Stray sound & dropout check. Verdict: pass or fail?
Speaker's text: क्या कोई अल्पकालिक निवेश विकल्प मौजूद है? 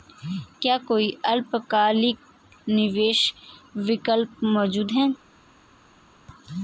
pass